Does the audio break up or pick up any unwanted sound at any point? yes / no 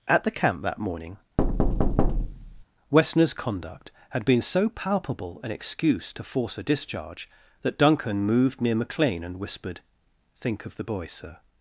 yes